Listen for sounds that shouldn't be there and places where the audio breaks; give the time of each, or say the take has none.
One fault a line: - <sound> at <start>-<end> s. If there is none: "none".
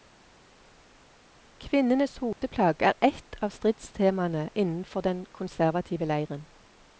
- dropout at 2.3-2.4 s